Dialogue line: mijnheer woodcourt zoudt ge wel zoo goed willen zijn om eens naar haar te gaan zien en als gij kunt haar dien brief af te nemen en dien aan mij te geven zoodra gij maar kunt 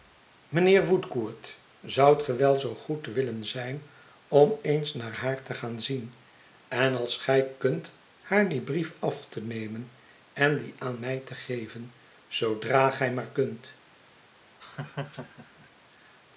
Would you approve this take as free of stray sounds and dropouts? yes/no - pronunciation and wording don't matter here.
no